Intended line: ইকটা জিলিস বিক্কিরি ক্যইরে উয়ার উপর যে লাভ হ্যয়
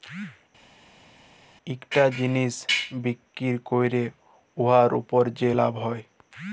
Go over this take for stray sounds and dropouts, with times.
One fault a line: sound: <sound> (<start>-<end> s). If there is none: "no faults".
no faults